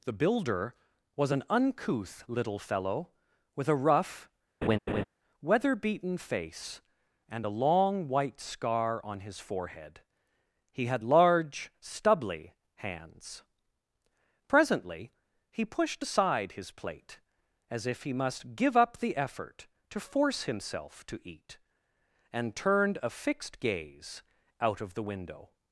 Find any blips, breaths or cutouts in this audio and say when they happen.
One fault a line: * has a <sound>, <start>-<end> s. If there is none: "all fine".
* has a laugh, 4.6-5.0 s